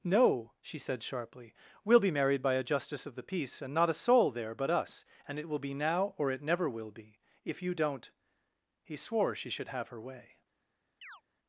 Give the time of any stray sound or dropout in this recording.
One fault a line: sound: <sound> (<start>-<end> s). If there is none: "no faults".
sound: chirp (11.0-11.2 s)